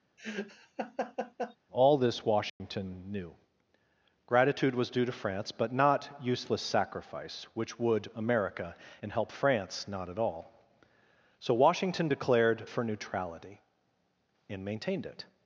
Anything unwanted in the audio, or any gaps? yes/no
yes